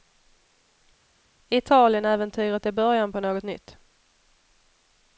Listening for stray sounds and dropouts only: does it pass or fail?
pass